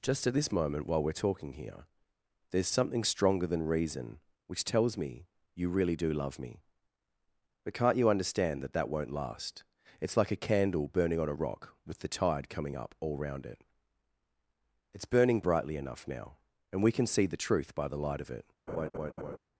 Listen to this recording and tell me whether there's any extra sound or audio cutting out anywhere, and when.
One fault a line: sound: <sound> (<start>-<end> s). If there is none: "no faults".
sound: laugh (18.7-19.4 s)